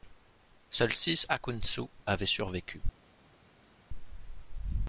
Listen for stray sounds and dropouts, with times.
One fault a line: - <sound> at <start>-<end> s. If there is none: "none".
none